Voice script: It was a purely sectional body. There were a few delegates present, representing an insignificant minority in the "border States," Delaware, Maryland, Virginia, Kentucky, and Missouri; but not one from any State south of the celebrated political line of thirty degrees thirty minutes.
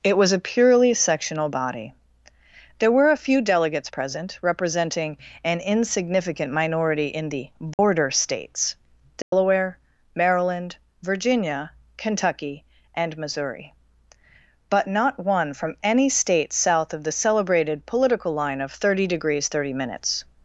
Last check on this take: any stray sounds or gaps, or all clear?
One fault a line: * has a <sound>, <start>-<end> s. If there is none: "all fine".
* has a dropout, 7.7-7.8 s
* has a dropout, 9.2-9.3 s